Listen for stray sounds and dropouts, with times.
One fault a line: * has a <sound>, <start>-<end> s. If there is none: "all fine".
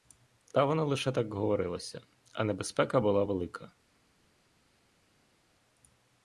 all fine